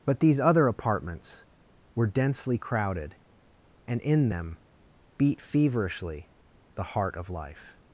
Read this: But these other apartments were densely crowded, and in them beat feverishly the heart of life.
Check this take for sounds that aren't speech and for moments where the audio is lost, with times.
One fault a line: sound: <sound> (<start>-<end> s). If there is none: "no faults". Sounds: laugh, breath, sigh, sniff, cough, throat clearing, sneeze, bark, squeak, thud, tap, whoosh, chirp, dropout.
no faults